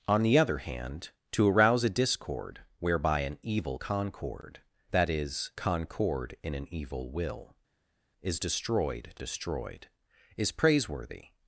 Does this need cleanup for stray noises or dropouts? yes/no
no